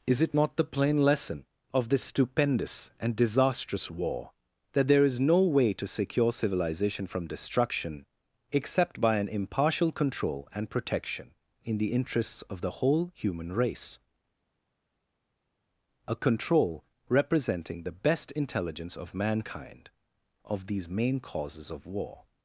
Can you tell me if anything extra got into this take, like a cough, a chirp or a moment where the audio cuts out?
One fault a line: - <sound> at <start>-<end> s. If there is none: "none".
none